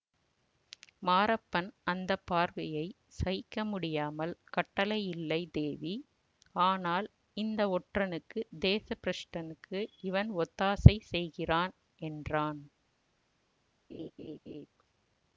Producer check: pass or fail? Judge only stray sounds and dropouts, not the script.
fail